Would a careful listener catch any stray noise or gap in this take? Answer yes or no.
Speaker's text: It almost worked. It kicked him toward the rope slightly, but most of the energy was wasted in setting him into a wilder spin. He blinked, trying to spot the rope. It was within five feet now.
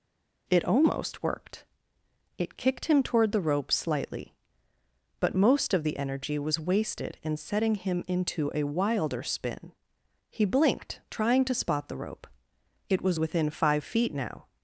no